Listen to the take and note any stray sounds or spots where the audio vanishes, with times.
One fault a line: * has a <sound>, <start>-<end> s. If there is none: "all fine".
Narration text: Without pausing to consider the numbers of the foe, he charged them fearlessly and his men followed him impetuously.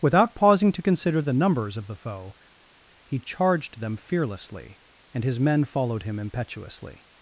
all fine